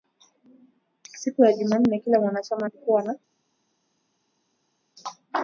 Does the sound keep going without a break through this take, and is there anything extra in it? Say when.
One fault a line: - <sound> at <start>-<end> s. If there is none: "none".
none